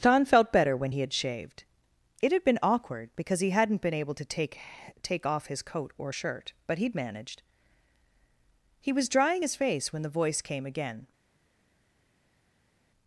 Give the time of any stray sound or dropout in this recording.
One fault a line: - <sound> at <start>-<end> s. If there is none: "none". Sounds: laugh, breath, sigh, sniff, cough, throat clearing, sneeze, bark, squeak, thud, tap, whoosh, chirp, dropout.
none